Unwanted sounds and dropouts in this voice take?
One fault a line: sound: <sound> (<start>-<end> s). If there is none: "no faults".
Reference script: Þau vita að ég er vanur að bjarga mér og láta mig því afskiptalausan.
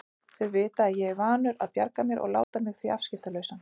sound: dropout (2.4-2.5 s)